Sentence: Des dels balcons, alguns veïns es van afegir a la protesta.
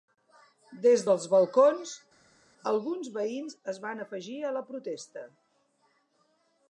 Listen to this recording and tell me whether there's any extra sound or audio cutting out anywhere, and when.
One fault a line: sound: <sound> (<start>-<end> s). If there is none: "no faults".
no faults